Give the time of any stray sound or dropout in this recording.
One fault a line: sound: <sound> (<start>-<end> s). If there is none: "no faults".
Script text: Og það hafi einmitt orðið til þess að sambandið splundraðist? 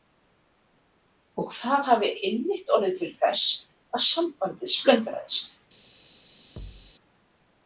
sound: thud (6.6-6.9 s)